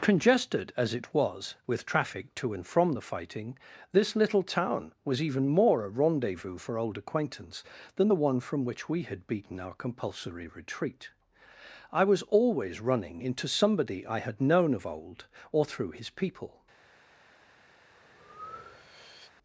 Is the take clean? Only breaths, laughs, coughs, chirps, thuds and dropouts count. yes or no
no